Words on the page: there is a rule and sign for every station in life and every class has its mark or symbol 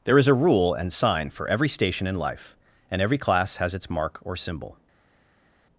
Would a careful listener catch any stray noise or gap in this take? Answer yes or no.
no